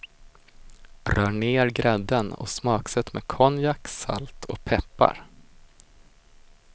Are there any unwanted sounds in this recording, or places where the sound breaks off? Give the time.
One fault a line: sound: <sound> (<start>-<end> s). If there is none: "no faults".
no faults